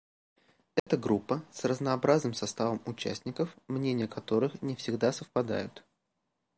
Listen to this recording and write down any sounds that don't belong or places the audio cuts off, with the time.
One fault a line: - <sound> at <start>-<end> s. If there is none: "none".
- dropout at 0.8-0.9 s